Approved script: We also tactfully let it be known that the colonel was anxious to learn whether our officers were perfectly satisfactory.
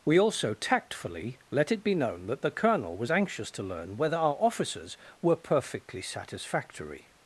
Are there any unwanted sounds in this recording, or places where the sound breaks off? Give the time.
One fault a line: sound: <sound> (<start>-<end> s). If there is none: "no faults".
no faults